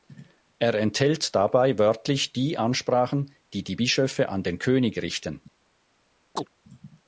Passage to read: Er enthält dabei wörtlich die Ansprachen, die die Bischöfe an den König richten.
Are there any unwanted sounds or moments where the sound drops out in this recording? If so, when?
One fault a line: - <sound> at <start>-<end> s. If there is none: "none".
- chirp at 6.4-6.5 s